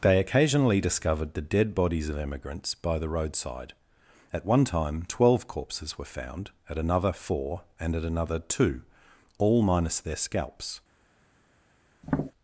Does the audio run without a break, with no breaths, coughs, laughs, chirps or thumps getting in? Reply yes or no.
no